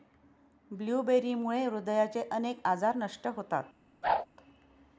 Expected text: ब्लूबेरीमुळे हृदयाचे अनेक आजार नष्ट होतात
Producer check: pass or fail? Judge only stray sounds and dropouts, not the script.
fail